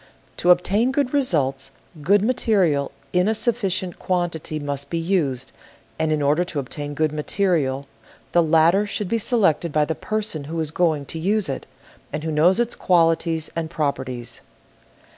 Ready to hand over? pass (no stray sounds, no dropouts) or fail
pass